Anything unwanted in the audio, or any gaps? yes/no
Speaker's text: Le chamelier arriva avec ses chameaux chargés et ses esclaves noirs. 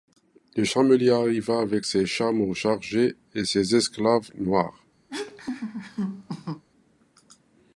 yes